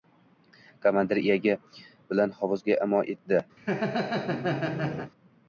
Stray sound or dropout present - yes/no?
yes